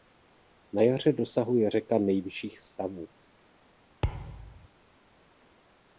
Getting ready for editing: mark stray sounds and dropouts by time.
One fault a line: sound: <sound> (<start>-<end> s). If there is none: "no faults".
sound: thud (4.0-4.7 s)